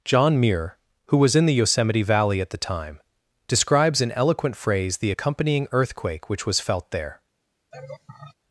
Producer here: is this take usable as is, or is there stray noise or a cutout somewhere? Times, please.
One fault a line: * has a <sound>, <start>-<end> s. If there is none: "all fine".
* has a laugh, 7.7-8.3 s